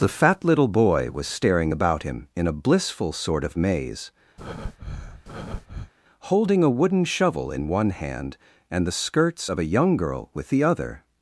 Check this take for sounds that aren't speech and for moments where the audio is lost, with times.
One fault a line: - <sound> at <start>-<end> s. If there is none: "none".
- breath at 4.4-5.9 s